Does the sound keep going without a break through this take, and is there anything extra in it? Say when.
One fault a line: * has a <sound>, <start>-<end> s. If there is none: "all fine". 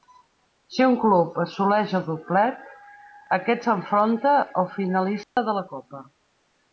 * has a dropout, 5.2-5.4 s